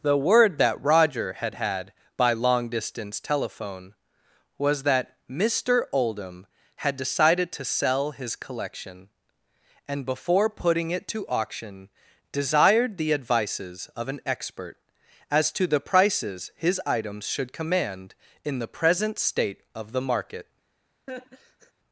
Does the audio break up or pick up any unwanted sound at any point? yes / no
yes